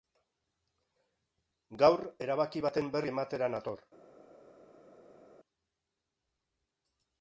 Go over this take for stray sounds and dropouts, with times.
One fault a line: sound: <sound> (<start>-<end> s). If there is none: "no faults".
no faults